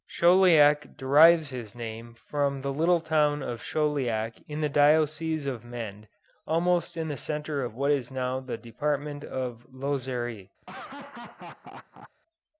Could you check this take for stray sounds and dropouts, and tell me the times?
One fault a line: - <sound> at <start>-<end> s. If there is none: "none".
- laugh at 10.6-12.1 s